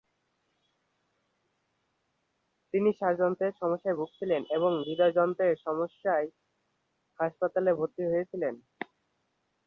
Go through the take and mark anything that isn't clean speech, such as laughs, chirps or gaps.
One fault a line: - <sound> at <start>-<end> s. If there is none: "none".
none